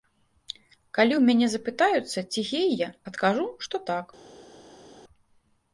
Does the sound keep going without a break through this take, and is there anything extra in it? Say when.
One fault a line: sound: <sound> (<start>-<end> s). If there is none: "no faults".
no faults